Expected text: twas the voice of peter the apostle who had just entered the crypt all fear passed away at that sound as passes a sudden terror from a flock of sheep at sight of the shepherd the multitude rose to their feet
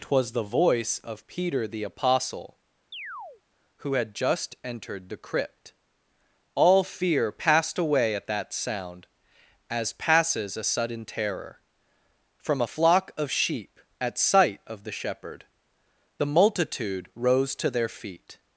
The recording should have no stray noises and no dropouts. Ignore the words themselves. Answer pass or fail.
fail